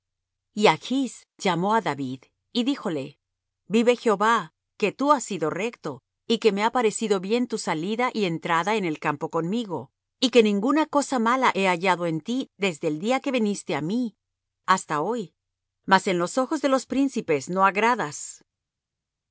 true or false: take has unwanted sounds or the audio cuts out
false